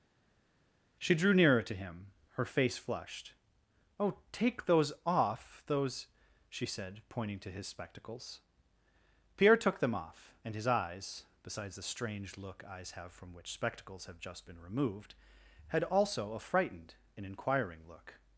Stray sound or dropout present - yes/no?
no